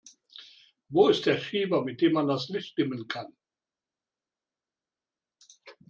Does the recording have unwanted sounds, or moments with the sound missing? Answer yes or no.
no